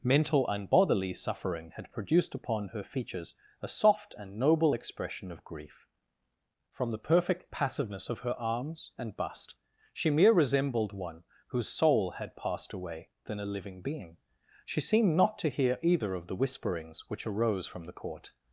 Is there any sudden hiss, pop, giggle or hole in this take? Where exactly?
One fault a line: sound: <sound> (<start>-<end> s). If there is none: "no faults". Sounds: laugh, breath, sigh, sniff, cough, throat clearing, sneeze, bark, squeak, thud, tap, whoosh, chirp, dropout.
no faults